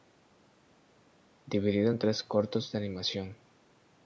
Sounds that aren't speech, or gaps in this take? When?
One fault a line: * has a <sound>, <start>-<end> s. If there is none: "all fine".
all fine